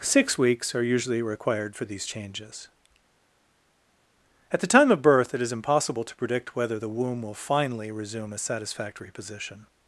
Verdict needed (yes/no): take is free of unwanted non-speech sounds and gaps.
yes